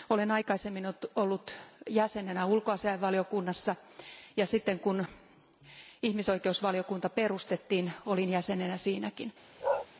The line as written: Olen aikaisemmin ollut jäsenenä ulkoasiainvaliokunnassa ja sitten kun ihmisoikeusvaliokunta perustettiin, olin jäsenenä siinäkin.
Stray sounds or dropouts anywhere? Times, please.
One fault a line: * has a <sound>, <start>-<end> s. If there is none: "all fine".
* has a bark, 9.6-9.9 s